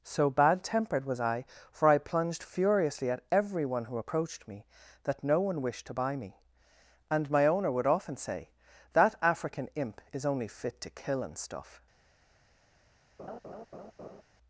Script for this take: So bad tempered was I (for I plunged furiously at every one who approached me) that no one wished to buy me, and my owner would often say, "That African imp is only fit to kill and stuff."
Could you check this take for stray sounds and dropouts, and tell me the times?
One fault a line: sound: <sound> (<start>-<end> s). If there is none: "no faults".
sound: laugh (13.2-14.2 s)